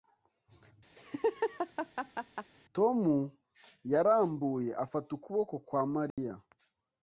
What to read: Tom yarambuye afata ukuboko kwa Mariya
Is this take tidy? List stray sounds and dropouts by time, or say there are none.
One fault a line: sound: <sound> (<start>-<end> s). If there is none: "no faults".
sound: laugh (1.0-2.5 s)
sound: dropout (6.1-6.2 s)